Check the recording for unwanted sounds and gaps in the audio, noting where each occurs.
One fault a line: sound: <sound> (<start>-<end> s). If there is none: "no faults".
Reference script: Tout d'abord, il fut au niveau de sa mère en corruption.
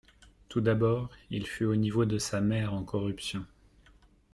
no faults